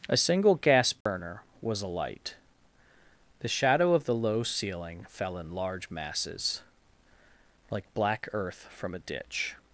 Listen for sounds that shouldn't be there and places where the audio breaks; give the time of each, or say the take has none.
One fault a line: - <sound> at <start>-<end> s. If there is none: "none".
- dropout at 1.0-1.1 s